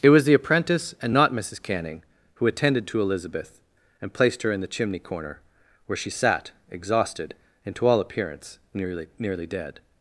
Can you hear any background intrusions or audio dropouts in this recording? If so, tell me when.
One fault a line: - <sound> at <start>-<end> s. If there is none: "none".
none